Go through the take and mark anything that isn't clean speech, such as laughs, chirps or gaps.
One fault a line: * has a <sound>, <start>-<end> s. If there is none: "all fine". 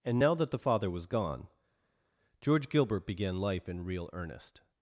all fine